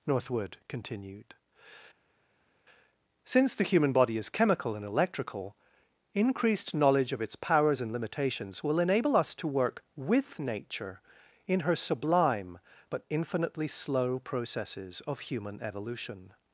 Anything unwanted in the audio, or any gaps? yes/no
no